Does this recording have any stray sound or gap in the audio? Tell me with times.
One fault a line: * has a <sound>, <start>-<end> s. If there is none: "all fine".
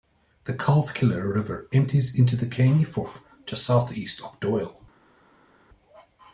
all fine